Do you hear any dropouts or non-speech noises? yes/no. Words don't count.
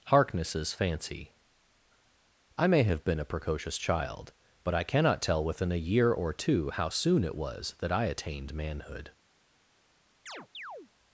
yes